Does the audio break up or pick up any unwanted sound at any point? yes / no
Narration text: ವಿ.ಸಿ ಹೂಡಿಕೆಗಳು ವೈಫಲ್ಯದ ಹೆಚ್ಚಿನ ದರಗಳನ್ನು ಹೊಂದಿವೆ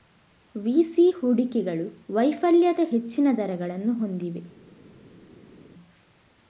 no